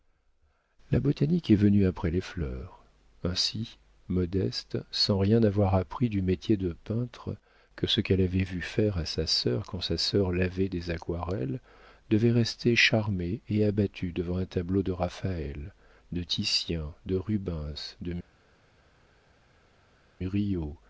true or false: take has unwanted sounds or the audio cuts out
false